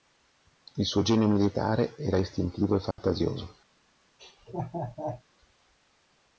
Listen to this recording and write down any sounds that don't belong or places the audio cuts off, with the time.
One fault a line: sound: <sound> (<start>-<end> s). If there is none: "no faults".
sound: dropout (2.9-3.0 s)
sound: laugh (4.2-5.2 s)